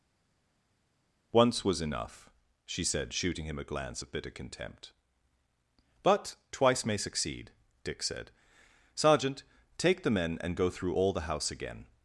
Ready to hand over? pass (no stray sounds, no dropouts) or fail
pass